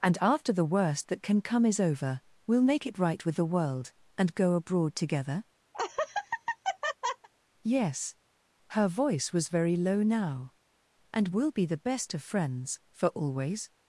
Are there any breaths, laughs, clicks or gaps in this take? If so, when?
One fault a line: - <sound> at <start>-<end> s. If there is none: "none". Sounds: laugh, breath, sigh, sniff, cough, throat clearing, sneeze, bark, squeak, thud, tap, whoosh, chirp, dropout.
- laugh at 5.7-7.3 s